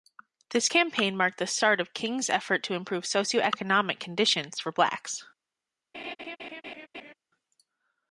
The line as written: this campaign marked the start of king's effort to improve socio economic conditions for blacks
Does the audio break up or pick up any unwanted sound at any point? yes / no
yes